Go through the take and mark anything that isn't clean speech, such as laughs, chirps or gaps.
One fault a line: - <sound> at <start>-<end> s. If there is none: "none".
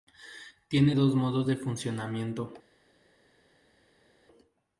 none